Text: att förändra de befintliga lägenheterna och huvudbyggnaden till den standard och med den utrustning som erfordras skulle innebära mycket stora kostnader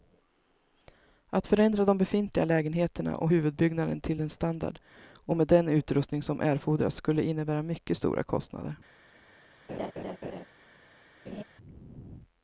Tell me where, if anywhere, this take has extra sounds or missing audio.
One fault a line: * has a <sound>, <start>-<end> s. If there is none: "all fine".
* has a laugh, 9.7-10.4 s
* has a laugh, 11.3-11.4 s